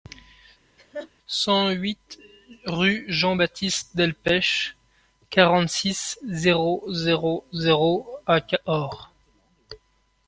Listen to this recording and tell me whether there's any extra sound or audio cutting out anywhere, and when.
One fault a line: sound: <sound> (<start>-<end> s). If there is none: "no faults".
sound: laugh (0.8-1.1 s)